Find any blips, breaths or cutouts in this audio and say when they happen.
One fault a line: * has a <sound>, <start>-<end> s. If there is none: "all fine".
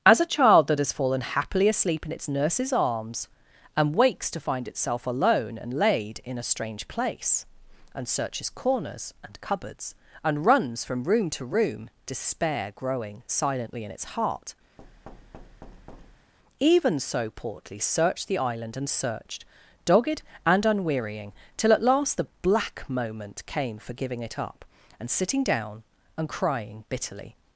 * has a thud, 14.8-16.3 s